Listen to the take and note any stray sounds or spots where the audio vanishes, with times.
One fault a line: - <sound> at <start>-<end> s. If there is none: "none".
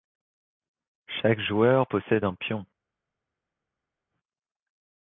none